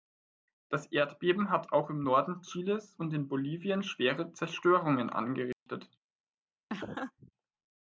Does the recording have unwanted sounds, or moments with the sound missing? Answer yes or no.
yes